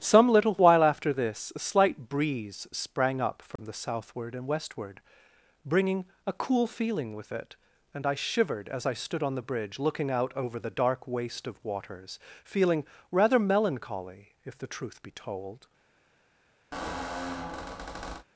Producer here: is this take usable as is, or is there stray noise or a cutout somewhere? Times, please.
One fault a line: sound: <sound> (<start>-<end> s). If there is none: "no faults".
sound: dropout (3.6-3.6 s)
sound: squeak (16.7-18.3 s)